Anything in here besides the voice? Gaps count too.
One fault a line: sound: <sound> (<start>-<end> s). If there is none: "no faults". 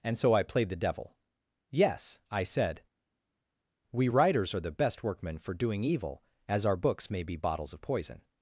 no faults